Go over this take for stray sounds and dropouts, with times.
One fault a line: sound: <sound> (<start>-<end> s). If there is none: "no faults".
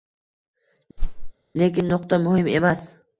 sound: whoosh (1.0-1.3 s)